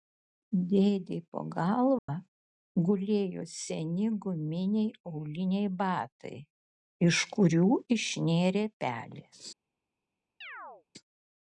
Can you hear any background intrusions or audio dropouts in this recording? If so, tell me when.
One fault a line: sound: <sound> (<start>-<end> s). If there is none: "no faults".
sound: dropout (2.0-2.1 s)
sound: chirp (10.4-10.8 s)